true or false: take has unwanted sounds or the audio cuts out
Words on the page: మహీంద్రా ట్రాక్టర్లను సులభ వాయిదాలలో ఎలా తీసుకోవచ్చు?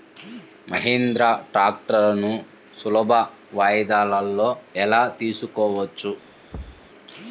true